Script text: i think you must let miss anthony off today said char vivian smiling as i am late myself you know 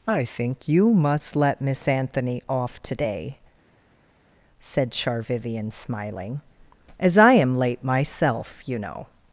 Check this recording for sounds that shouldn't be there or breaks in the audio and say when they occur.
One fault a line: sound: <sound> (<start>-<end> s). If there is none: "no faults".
no faults